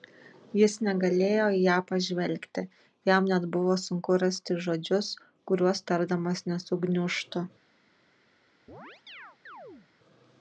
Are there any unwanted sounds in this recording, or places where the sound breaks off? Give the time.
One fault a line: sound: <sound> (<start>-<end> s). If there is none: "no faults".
sound: chirp (8.7-9.9 s)